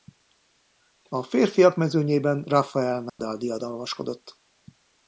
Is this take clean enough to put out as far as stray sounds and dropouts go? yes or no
no